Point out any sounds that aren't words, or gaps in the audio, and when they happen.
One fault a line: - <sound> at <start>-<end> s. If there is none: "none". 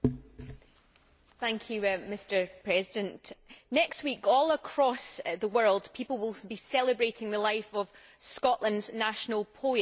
none